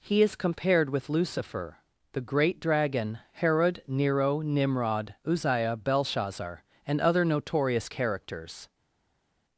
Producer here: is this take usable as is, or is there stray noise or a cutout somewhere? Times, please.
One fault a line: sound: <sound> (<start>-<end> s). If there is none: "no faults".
no faults